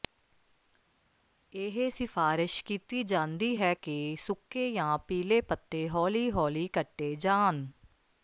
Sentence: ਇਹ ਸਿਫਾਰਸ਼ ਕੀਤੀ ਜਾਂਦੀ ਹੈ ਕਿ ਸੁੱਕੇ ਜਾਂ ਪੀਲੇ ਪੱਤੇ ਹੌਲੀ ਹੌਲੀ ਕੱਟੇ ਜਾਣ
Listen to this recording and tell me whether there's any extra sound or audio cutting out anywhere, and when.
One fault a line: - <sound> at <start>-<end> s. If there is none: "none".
none